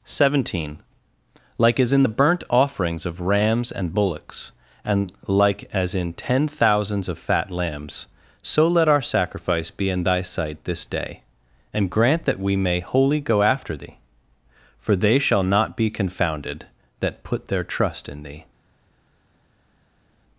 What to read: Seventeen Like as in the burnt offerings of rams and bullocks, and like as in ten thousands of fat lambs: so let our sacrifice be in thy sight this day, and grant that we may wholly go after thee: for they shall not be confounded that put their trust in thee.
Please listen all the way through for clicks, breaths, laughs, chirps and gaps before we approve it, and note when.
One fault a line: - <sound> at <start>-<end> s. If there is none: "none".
none